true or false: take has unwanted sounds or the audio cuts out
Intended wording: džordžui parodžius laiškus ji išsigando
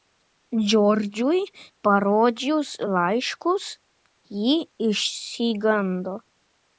false